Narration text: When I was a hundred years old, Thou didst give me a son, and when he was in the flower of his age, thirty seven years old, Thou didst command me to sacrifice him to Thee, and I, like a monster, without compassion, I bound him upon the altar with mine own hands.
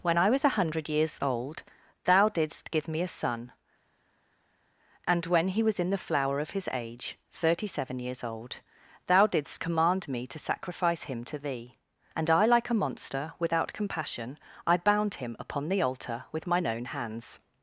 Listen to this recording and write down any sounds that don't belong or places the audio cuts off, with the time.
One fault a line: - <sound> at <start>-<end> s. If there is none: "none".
none